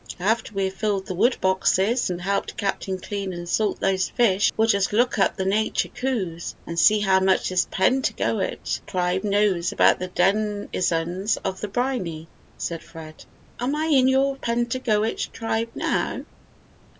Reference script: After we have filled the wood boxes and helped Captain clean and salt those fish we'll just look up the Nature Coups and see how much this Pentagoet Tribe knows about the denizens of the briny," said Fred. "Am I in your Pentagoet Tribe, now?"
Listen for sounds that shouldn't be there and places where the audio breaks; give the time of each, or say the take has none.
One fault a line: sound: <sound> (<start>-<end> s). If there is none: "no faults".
no faults